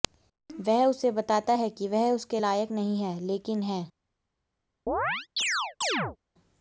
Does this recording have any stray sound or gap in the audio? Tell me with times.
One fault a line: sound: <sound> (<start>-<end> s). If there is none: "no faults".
sound: chirp (4.9-6.2 s)